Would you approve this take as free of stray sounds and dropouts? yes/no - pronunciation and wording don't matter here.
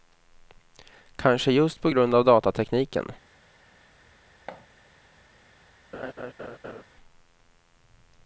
no